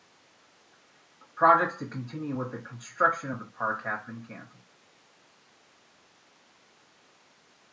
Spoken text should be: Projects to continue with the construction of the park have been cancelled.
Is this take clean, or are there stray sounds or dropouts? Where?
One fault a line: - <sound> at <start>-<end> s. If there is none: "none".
none